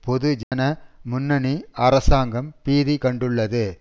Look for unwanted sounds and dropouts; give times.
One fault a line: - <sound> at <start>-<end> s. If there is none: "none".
- dropout at 0.4-0.5 s